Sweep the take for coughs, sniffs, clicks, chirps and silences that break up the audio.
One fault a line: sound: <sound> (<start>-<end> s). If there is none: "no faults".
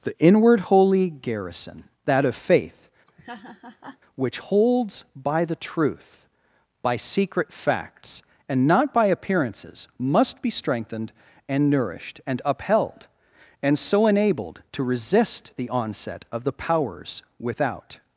sound: laugh (3.1-4.0 s)